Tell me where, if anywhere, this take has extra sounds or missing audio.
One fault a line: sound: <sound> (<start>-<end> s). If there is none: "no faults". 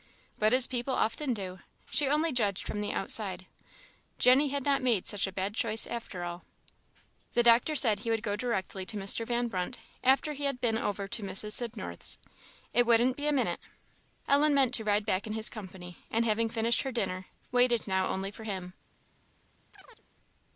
sound: chirp (19.7-20.0 s)